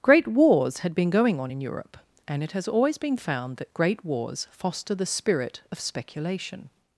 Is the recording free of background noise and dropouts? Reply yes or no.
yes